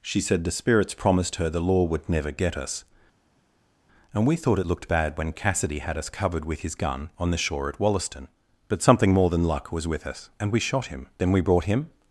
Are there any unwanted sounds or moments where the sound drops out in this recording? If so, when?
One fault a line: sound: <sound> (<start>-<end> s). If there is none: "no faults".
no faults